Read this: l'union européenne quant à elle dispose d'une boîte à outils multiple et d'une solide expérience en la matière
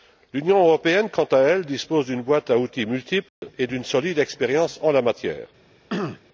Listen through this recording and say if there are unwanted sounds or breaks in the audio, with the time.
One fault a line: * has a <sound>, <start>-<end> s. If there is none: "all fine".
* has a dropout, 3.3-3.4 s
* has a throat clearing, 5.9-6.2 s